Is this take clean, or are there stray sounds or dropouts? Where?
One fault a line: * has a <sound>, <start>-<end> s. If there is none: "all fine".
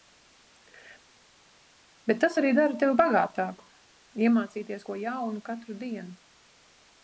all fine